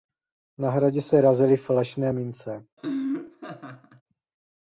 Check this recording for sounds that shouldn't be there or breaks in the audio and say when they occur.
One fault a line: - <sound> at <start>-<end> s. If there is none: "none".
- laugh at 2.8-4.0 s